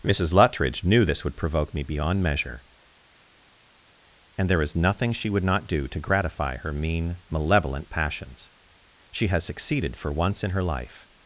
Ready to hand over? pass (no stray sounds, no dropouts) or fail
pass